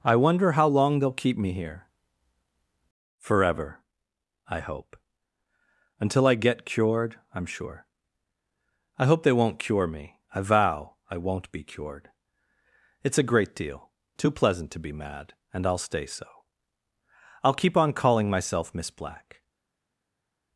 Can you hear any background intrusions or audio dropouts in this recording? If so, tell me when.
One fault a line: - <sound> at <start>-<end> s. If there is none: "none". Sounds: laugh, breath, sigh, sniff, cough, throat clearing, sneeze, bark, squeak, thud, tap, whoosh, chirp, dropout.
none